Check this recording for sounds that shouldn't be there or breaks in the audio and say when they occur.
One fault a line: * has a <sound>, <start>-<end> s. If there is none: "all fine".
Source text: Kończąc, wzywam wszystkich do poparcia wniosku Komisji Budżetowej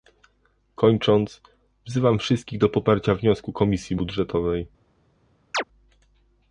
* has a chirp, 5.5-5.6 s